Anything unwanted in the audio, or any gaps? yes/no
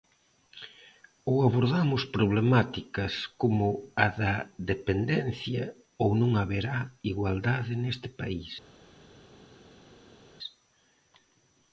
no